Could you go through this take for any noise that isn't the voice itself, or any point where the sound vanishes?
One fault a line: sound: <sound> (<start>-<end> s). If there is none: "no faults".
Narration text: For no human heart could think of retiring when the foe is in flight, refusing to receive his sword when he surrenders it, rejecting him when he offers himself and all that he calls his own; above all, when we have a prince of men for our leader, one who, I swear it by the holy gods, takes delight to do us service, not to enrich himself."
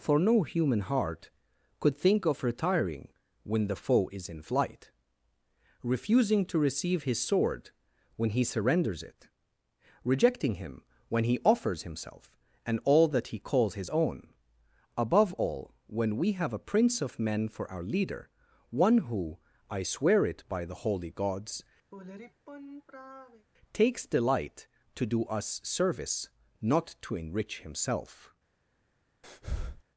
sound: sigh (21.9-23.5 s)
sound: breath (29.2-29.8 s)